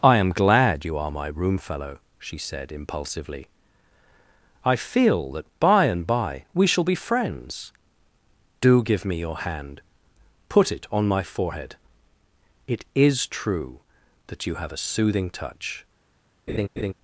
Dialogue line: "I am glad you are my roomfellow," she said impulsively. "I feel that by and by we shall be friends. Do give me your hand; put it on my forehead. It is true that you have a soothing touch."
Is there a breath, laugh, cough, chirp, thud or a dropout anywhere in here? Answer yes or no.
yes